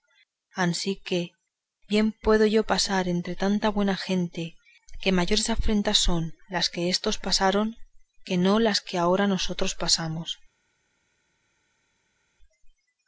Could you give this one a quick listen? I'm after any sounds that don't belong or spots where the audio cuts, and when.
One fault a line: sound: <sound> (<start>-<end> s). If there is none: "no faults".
no faults